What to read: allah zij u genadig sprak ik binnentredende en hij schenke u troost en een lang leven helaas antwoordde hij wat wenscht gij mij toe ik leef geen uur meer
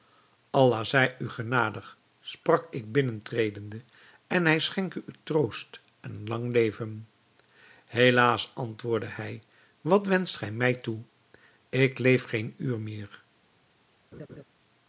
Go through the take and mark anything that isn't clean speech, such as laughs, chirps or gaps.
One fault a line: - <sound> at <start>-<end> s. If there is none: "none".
- laugh at 14.1-14.4 s